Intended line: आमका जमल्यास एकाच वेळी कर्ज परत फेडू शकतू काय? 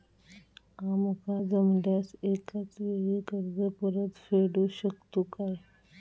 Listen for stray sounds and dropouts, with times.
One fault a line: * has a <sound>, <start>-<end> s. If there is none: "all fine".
all fine